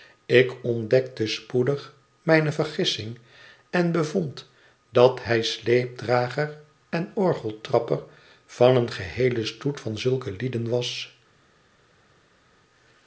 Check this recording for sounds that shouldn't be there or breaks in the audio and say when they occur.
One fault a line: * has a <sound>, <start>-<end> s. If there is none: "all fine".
all fine